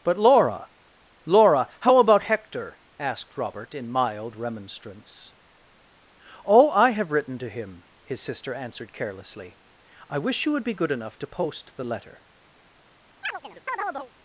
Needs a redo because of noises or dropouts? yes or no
yes